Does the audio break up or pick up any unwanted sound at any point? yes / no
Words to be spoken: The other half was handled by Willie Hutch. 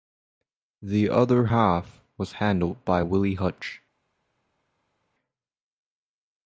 no